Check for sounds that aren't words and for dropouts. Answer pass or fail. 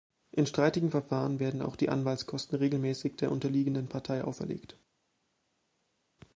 pass